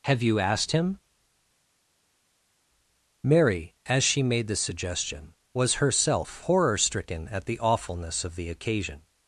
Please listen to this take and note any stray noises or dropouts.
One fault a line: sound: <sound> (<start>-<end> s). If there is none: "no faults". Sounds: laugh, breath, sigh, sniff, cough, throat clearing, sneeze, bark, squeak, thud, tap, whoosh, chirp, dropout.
no faults